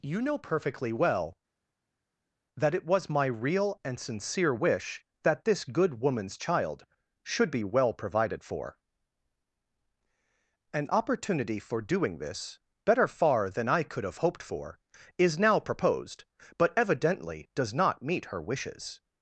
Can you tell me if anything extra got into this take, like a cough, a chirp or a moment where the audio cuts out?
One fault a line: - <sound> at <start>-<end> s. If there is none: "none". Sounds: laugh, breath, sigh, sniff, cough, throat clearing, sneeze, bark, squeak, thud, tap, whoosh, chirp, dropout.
none